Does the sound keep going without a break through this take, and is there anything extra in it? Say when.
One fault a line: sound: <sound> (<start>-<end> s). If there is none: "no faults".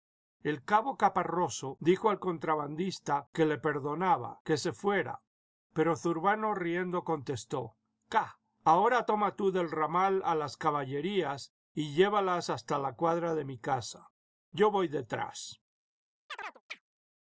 sound: chirp (16.3-16.8 s)